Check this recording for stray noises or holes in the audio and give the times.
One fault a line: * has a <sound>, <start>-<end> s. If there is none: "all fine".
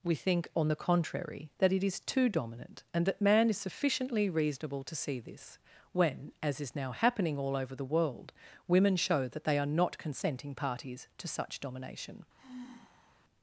* has a sigh, 12.4-13.2 s